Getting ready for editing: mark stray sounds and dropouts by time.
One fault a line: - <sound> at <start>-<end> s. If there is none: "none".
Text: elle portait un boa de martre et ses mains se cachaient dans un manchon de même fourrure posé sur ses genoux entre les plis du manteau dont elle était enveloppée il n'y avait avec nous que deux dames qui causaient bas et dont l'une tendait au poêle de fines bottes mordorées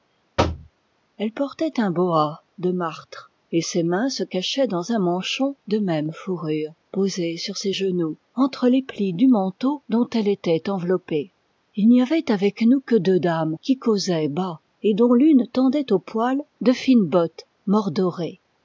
- thud at 0.4-0.7 s